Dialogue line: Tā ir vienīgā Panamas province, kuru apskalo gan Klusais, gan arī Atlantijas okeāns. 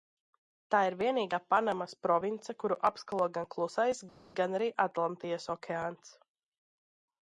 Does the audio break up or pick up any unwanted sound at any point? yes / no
no